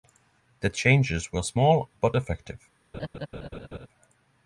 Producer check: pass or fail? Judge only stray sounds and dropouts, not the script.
fail